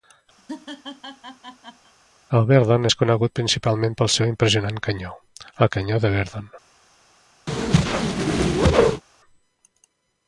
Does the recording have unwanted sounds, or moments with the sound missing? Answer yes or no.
yes